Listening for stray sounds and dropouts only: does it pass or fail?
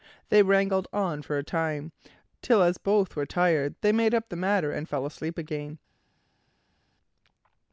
pass